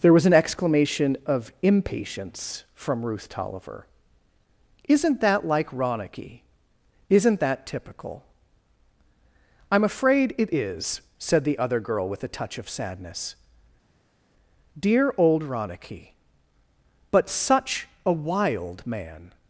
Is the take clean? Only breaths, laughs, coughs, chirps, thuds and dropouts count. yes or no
yes